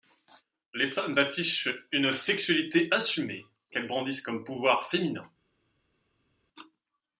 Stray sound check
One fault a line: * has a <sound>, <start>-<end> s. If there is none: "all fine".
all fine